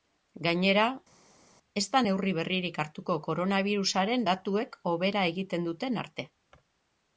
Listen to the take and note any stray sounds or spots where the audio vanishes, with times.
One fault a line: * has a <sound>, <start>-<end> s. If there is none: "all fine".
all fine